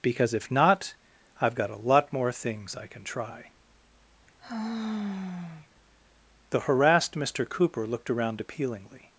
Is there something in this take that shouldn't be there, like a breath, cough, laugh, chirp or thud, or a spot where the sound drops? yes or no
yes